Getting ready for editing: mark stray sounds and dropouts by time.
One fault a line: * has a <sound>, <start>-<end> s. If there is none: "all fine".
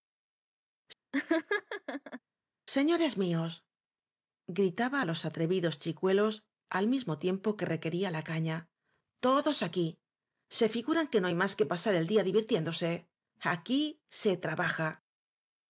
* has a laugh, 1.1-2.2 s